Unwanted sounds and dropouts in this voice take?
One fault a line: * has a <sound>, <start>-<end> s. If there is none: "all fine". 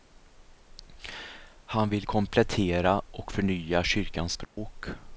* has a dropout, 4.4-4.6 s